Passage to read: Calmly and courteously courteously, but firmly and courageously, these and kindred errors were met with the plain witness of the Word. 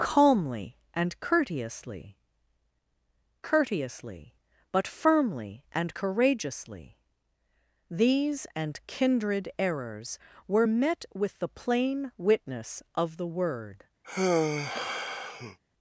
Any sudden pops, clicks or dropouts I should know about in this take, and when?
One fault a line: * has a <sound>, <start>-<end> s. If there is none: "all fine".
* has a sigh, 14.0-15.6 s